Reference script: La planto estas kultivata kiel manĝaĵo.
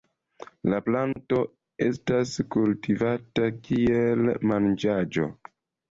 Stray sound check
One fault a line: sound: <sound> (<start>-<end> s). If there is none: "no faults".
sound: dropout (1.1-1.2 s)